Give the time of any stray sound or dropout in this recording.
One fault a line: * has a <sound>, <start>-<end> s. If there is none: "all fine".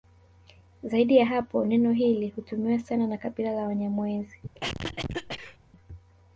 * has a cough, 4.5-5.6 s